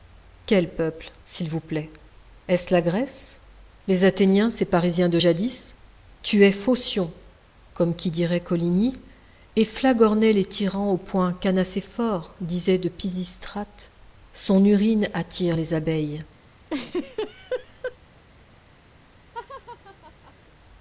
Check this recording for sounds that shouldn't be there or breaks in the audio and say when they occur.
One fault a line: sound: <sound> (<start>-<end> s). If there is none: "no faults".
sound: laugh (16.7-18.0 s)
sound: laugh (19.3-20.3 s)